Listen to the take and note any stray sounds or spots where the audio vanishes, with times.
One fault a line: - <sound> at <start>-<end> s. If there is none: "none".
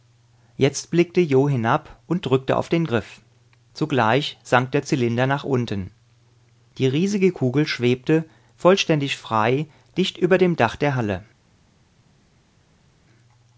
none